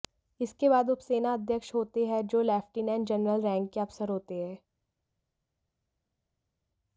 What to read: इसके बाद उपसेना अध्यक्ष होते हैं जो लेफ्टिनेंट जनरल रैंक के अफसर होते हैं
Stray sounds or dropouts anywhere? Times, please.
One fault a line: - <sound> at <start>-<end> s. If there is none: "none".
none